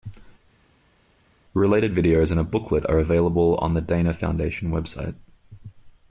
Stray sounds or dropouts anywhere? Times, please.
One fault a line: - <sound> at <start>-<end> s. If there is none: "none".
none